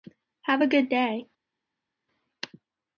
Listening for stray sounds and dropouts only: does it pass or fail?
pass